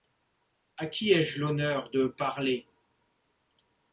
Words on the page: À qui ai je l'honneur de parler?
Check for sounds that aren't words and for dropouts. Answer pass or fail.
pass